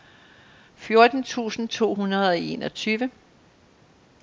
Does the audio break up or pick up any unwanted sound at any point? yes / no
no